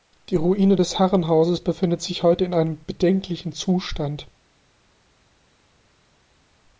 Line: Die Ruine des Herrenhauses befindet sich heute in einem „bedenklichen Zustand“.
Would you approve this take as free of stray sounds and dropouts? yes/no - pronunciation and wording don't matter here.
yes